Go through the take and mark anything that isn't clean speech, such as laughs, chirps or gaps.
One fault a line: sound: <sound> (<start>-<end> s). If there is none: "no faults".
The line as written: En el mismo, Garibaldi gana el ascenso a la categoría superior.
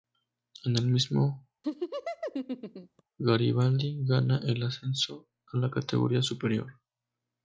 sound: laugh (1.6-3.0 s)